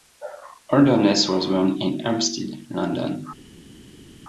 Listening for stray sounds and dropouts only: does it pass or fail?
pass